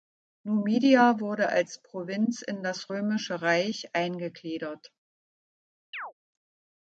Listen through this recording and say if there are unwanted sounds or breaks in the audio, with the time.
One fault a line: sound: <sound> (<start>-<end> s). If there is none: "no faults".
sound: chirp (5.9-6.1 s)